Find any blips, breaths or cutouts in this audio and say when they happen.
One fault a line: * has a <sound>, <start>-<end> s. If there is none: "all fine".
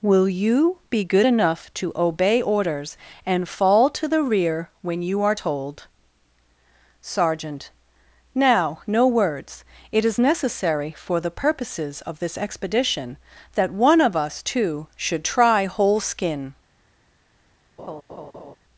* has a laugh, 17.8-18.6 s